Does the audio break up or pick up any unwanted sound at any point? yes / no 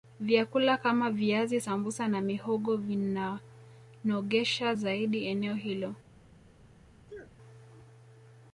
yes